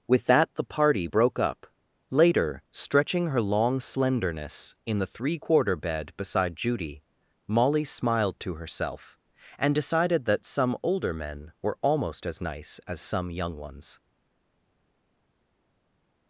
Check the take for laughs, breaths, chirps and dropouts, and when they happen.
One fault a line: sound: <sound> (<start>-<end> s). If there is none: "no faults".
no faults